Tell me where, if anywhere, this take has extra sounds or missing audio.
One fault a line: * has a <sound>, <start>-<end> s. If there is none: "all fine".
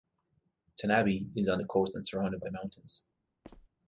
* has a squeak, 3.4-3.7 s